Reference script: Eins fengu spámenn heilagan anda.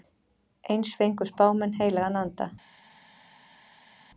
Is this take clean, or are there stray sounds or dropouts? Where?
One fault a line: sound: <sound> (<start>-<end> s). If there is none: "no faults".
no faults